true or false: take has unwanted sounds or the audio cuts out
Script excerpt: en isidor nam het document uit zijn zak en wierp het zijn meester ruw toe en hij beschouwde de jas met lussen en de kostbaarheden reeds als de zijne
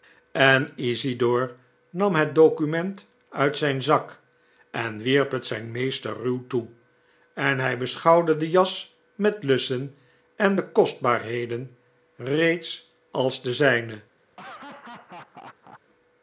true